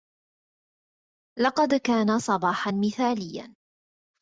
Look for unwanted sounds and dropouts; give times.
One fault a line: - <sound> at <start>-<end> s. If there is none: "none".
none